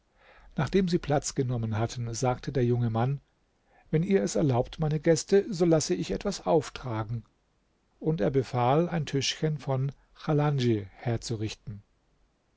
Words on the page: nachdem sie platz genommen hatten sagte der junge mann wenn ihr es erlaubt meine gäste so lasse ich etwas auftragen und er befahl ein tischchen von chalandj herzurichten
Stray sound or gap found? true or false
false